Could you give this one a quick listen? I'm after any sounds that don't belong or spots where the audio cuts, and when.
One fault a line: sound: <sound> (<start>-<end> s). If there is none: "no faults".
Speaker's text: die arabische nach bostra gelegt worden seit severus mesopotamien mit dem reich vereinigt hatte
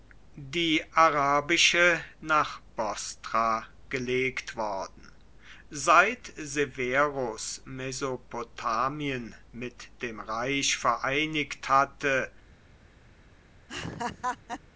sound: laugh (13.7-14.6 s)